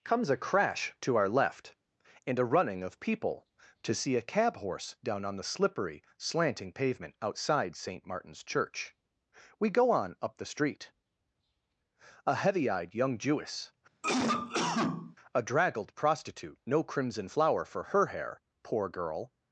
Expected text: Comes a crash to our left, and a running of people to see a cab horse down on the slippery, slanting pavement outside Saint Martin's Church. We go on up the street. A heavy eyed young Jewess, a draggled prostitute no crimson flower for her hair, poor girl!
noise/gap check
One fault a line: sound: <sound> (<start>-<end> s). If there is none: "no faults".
sound: cough (14.0-15.2 s)